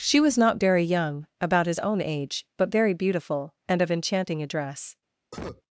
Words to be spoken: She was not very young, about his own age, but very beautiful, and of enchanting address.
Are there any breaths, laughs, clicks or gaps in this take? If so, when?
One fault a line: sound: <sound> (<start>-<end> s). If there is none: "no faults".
sound: cough (5.3-5.6 s)